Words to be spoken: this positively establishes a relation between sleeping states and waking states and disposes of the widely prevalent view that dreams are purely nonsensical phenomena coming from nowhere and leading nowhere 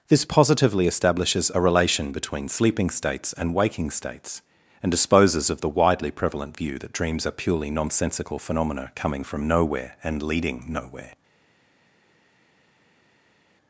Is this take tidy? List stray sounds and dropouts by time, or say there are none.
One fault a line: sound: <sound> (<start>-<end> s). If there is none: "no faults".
no faults